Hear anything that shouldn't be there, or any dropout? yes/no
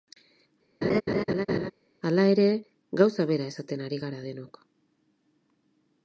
yes